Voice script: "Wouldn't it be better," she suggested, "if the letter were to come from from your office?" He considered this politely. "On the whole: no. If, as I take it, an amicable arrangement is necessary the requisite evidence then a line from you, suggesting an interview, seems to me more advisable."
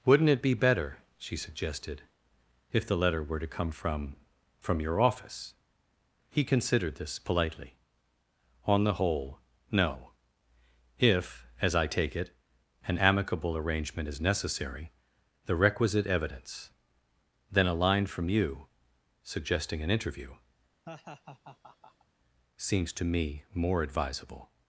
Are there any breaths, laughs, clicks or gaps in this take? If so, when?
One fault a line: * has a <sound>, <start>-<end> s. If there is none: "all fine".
* has a laugh, 20.9-22.1 s